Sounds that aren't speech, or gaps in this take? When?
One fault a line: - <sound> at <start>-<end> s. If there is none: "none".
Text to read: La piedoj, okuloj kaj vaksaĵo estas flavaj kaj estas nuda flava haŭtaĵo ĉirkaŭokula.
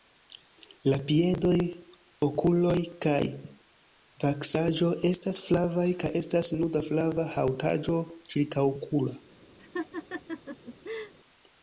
- laugh at 9.6-11.1 s